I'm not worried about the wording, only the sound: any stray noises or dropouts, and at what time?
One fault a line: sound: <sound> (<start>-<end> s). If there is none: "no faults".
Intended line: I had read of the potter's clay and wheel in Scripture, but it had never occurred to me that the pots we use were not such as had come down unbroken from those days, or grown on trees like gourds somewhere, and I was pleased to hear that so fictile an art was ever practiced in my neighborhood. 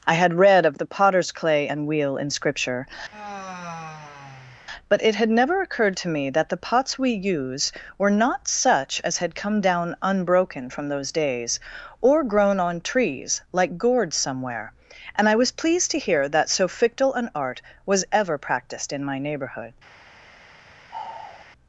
sound: sigh (3.1-4.6 s)
sound: sigh (20.9-21.5 s)